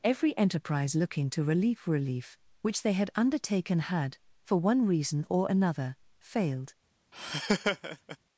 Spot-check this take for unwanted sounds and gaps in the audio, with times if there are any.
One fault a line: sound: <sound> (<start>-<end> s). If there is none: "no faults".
sound: laugh (7.1-8.2 s)